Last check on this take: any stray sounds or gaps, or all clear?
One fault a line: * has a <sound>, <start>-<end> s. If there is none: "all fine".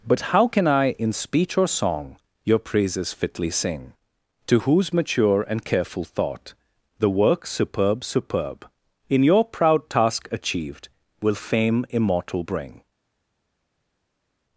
all fine